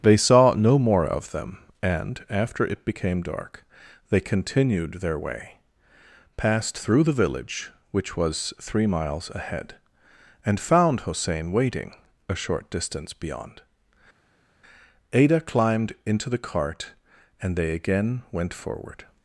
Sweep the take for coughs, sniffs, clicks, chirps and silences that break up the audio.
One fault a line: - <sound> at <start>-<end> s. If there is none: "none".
none